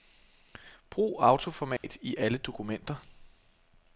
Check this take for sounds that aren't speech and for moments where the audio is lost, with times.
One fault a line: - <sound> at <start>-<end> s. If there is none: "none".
- dropout at 1.8-1.8 s